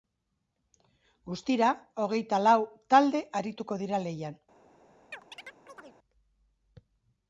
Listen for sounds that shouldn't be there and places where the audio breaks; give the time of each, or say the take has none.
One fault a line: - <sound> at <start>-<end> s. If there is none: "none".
- chirp at 5.1-6.0 s